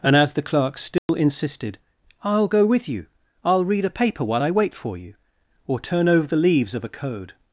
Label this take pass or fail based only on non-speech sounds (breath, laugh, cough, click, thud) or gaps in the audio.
fail